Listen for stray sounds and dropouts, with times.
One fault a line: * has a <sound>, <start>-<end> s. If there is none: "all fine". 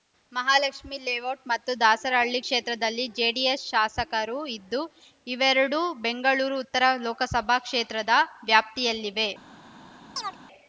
* has a chirp, 10.2-10.4 s